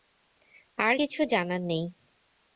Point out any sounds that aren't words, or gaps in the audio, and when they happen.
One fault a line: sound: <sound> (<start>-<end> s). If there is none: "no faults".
no faults